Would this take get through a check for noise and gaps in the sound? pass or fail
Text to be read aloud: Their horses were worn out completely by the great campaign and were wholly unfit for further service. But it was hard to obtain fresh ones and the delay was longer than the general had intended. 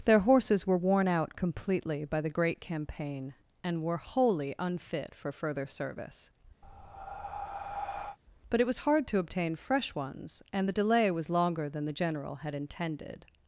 fail